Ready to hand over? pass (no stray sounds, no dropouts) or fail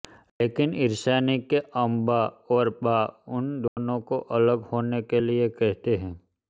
fail